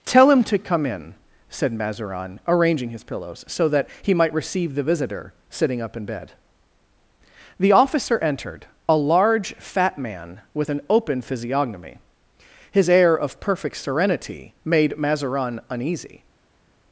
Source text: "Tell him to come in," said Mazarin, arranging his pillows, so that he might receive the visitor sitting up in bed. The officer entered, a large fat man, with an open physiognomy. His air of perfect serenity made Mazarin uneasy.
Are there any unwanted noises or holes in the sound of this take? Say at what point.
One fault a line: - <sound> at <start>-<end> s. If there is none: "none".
none